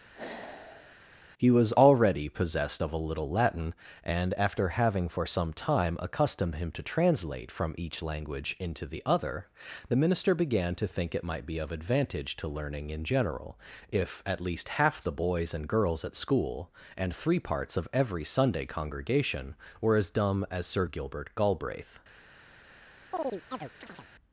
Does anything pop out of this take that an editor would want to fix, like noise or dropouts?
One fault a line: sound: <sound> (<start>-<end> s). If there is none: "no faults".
sound: sigh (0.1-1.0 s)
sound: chirp (23.1-24.1 s)